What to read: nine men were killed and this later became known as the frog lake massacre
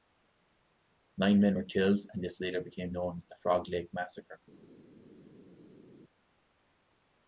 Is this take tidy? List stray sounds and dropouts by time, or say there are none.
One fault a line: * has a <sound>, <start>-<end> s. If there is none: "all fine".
all fine